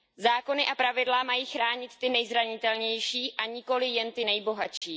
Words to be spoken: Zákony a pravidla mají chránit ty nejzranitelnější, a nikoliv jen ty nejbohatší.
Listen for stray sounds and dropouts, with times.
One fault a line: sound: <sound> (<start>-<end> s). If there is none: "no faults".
sound: dropout (4.8-4.8 s)